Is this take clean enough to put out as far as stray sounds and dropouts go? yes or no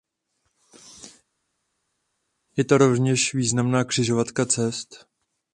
yes